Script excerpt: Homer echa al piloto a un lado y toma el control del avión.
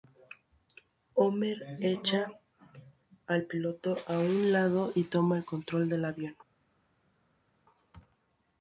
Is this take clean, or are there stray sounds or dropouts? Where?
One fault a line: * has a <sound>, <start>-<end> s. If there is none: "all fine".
all fine